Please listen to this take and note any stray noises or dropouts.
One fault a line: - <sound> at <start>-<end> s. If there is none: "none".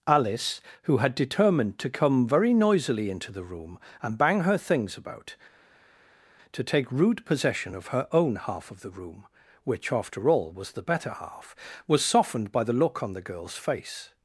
none